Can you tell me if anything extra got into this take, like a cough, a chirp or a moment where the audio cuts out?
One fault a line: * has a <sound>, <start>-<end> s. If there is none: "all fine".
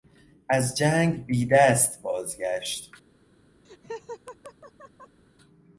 * has a laugh, 3.6-5.2 s